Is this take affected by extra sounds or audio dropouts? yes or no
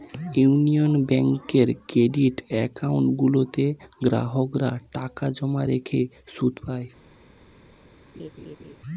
yes